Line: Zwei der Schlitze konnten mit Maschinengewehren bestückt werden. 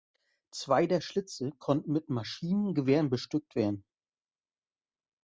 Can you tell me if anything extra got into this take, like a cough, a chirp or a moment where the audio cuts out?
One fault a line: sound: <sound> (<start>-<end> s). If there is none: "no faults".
no faults